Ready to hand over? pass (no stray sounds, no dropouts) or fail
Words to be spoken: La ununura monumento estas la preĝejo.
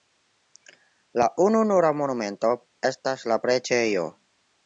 pass